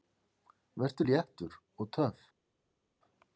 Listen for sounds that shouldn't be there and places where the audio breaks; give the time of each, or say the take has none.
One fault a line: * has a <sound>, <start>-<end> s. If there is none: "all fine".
all fine